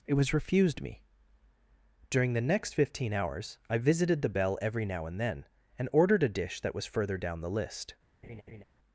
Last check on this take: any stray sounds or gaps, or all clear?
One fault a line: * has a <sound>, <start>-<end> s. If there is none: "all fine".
* has a laugh, 8.2-8.6 s